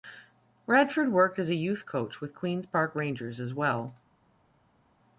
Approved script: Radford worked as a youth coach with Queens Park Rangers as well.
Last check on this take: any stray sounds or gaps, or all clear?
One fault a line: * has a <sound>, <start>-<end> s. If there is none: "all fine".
all fine